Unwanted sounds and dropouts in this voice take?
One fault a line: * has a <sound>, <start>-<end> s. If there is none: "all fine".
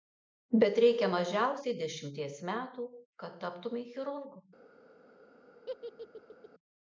* has a laugh, 5.7-6.5 s